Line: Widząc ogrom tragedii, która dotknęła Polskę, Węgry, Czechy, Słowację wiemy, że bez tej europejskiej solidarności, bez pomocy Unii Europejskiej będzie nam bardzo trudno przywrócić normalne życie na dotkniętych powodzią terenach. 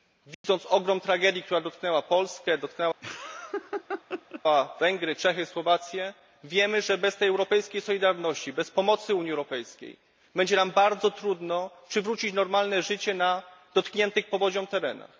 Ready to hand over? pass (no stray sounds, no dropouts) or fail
fail